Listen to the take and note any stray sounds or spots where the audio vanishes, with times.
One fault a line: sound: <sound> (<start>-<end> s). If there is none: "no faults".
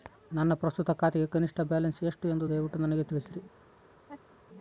sound: laugh (4.0-4.4 s)